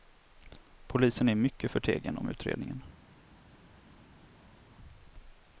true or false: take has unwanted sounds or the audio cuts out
false